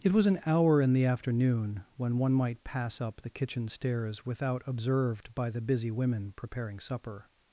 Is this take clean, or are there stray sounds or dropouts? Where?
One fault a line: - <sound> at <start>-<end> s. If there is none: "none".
none